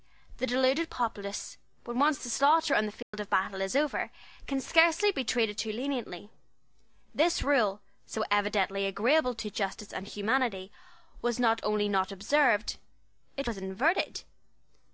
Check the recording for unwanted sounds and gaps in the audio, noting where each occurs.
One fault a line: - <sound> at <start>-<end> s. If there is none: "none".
- dropout at 3.0-3.1 s